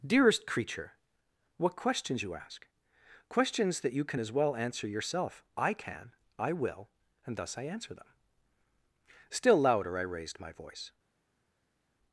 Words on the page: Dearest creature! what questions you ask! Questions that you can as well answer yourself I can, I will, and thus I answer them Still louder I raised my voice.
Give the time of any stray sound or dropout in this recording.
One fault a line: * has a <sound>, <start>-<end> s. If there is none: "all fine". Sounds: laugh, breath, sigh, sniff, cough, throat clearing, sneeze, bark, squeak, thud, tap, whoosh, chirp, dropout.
all fine